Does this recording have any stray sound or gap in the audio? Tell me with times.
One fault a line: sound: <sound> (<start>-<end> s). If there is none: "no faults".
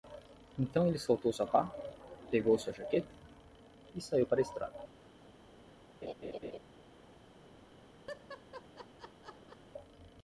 sound: laugh (6.0-6.6 s)
sound: laugh (8.1-9.6 s)